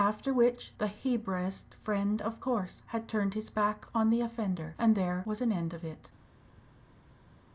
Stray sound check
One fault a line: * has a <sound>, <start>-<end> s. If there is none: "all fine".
all fine